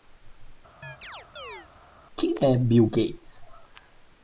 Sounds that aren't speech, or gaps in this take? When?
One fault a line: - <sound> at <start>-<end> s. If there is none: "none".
- chirp at 0.8-1.7 s